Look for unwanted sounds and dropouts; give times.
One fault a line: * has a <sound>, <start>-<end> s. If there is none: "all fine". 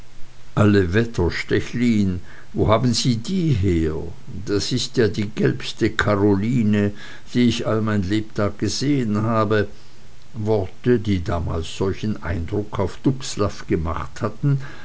all fine